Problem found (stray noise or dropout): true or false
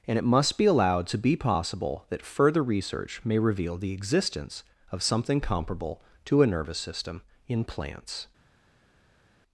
false